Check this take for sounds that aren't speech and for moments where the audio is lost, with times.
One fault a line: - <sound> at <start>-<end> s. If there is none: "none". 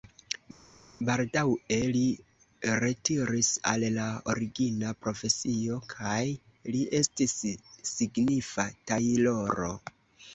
none